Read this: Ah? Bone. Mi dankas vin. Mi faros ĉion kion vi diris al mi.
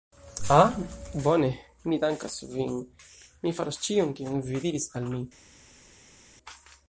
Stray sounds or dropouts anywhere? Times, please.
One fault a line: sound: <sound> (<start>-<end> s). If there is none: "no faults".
no faults